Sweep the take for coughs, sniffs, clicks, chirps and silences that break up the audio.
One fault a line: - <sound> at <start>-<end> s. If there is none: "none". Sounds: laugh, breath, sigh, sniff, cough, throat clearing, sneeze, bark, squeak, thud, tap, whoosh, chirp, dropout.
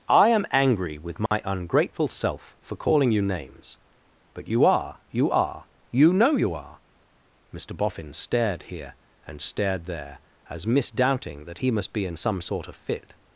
- dropout at 1.3-1.3 s